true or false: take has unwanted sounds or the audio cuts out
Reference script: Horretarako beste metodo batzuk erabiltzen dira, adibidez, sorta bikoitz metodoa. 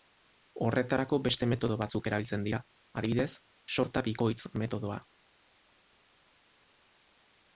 false